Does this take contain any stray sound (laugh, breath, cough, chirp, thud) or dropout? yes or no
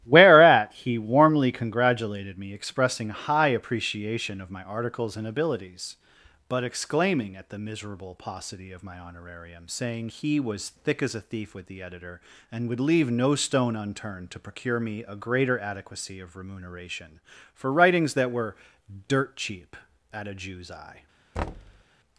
yes